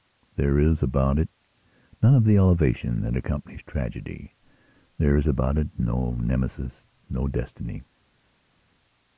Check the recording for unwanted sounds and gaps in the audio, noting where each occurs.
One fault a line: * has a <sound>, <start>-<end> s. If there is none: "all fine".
all fine